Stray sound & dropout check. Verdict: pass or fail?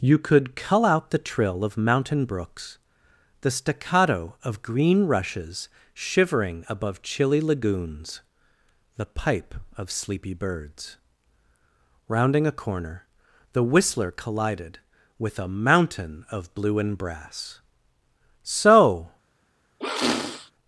fail